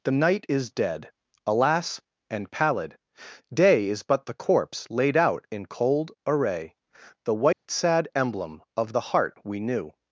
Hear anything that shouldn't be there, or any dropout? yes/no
yes